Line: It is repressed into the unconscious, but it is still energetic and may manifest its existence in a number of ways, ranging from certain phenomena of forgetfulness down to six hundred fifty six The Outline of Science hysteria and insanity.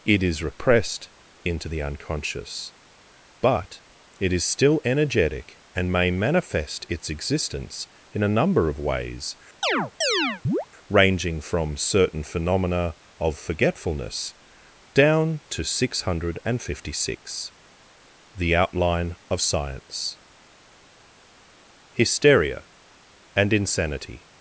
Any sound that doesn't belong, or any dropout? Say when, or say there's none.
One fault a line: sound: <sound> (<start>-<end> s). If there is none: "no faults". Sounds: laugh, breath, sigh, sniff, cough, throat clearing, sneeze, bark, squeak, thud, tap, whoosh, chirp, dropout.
sound: chirp (9.6-10.7 s)